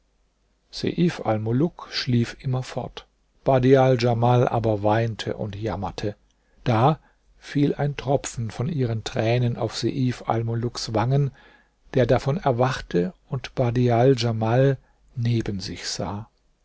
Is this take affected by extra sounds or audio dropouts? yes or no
no